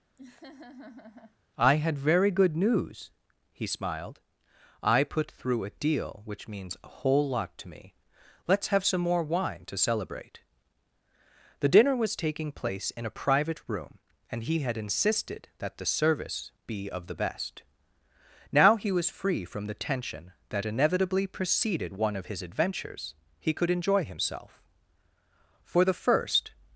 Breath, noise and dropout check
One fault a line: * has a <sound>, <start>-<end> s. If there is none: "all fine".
* has a laugh, 0.2-1.4 s